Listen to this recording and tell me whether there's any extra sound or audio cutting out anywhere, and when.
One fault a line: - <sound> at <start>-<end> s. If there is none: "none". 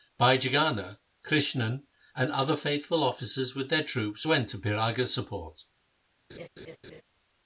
- laugh at 6.3-7.0 s